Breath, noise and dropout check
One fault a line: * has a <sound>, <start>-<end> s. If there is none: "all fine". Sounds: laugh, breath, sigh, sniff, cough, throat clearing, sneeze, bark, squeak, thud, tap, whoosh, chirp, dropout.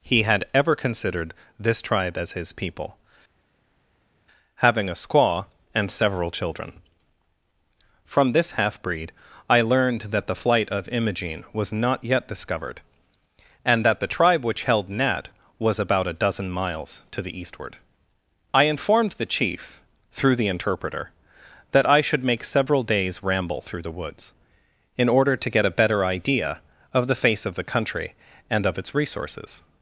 all fine